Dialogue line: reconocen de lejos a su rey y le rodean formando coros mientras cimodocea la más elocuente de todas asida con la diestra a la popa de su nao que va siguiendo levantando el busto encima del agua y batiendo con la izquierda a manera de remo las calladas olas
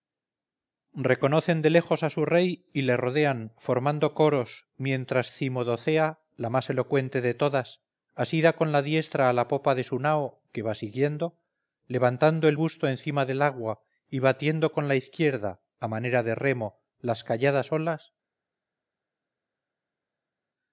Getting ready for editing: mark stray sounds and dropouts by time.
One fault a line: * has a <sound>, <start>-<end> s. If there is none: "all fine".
all fine